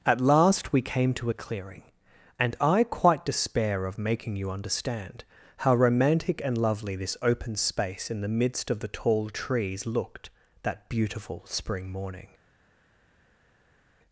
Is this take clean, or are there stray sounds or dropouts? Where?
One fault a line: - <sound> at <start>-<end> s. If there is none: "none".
none